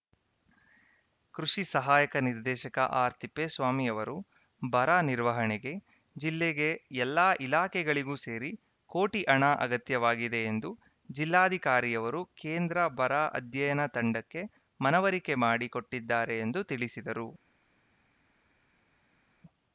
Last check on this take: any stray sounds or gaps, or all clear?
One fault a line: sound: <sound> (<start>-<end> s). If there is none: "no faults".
no faults